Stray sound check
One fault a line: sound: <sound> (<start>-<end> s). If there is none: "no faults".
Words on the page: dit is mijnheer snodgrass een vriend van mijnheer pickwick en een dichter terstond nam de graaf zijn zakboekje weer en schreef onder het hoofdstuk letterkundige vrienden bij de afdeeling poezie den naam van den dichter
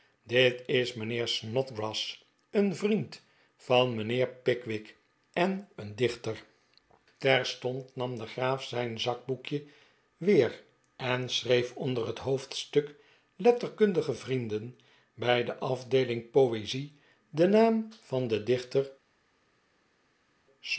no faults